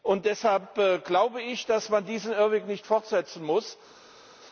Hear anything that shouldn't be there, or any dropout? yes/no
no